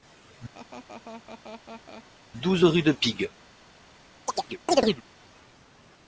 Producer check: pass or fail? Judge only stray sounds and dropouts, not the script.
fail